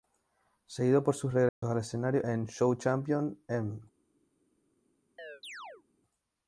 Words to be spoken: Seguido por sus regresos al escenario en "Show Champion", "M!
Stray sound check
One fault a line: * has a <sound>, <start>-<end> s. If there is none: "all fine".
* has a dropout, 1.5-1.6 s
* has a chirp, 5.2-5.8 s